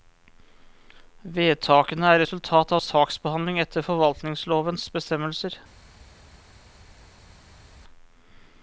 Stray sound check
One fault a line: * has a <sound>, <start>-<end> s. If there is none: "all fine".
all fine